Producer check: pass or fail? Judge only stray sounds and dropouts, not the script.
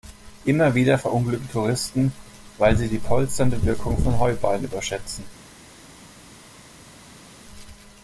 pass